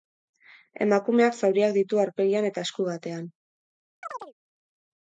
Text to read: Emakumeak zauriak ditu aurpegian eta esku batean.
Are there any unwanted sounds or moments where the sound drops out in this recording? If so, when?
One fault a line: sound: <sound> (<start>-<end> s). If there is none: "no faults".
sound: chirp (4.0-4.3 s)